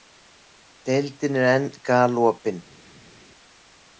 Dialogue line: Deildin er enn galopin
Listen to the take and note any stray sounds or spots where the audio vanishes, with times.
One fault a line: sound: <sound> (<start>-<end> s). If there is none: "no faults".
no faults